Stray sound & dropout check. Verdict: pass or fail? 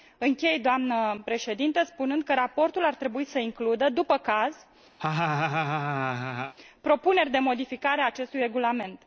fail